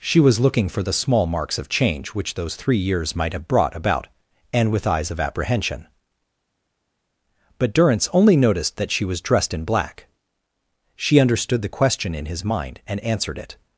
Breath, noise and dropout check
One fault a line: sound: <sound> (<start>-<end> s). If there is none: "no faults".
no faults